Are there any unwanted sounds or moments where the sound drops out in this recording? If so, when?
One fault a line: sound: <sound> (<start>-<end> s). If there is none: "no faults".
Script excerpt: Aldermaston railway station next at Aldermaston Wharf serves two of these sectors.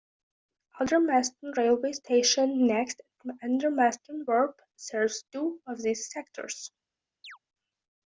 sound: chirp (7.2-7.4 s)